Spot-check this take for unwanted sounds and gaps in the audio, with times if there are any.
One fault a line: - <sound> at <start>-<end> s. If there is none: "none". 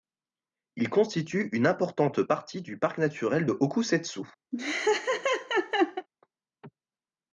- laugh at 4.5-6.1 s